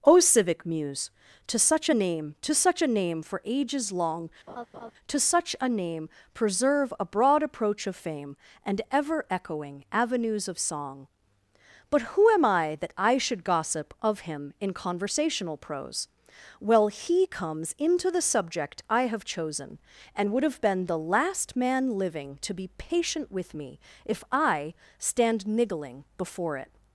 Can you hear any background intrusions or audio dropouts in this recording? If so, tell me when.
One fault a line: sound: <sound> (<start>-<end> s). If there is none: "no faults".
sound: laugh (4.5-4.9 s)